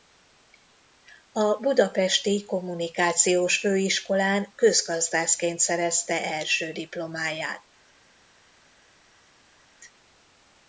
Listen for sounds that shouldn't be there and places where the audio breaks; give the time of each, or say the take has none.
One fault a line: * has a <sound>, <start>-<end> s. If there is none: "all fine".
all fine